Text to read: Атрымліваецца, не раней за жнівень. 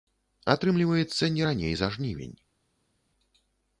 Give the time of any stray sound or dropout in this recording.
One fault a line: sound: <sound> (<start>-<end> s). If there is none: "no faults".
no faults